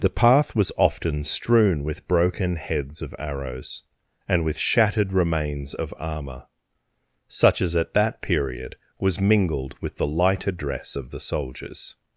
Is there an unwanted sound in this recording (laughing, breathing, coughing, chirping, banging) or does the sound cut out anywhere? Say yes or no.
no